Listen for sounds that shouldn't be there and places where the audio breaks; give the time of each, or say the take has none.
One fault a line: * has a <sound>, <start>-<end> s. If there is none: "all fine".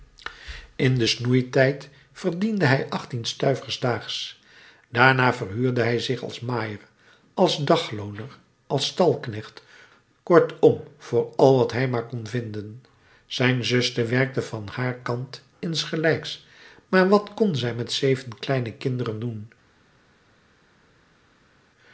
all fine